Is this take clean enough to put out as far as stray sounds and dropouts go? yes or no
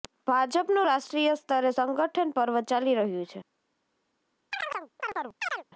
no